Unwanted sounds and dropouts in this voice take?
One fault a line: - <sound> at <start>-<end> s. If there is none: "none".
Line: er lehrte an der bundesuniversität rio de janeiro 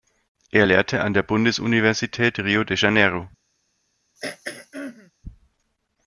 - throat clearing at 4.2-5.1 s